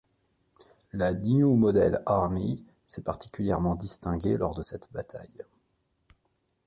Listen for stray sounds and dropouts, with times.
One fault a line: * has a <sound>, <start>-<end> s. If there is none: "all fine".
all fine